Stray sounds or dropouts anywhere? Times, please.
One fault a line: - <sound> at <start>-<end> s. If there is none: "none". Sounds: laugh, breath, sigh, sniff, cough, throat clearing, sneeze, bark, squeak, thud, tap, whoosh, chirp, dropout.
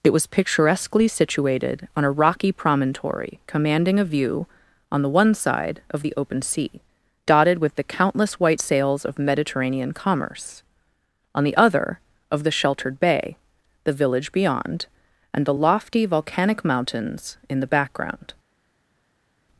none